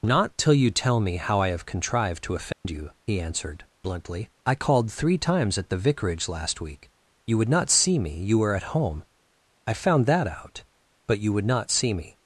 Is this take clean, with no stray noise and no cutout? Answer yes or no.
no